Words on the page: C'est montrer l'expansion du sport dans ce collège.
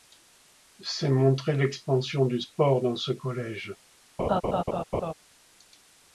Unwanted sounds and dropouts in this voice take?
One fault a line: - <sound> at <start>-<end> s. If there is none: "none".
- laugh at 4.2-5.1 s